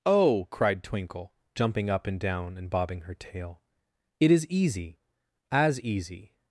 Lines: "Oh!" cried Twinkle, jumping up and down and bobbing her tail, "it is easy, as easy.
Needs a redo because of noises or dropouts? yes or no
no